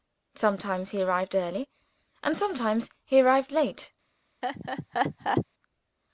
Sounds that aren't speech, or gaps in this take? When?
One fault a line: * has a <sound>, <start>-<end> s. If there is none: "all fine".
* has a laugh, 4.4-5.5 s